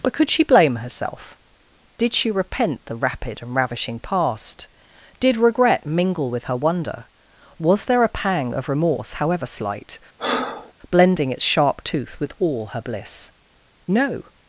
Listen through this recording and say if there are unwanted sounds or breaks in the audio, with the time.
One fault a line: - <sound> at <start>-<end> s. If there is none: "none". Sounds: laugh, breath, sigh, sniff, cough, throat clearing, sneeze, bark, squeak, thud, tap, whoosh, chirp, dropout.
- breath at 10.2-10.7 s